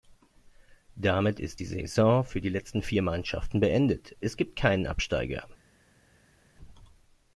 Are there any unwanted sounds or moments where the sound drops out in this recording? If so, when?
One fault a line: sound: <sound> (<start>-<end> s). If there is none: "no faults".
no faults